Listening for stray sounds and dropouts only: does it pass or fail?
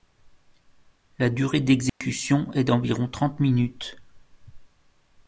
fail